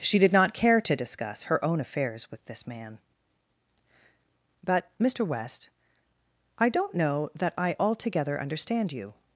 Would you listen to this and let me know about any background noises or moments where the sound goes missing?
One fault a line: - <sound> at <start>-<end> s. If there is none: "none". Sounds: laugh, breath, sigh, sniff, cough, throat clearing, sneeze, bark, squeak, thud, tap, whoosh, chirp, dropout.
none